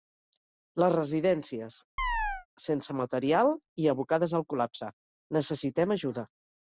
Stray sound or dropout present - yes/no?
yes